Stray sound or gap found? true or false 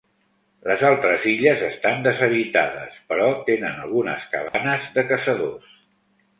true